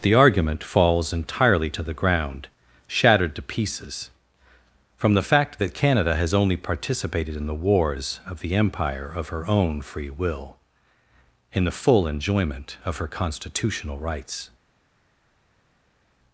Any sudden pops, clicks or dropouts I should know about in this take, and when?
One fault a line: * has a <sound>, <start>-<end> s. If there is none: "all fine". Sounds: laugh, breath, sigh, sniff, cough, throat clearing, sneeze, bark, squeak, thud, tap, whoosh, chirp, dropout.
all fine